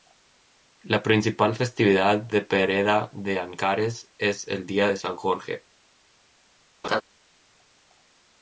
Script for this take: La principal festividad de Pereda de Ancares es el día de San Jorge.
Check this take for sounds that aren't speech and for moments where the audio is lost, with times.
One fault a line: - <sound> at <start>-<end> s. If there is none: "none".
- laugh at 6.8-7.0 s